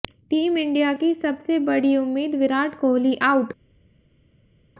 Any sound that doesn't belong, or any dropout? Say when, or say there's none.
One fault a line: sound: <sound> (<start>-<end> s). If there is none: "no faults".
no faults